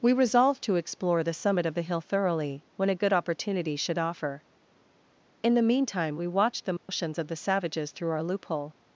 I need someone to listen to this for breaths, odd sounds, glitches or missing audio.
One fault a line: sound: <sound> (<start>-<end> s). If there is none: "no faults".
sound: dropout (6.8-6.9 s)